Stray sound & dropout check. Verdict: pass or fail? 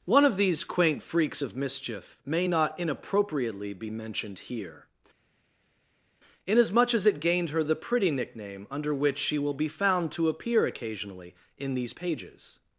pass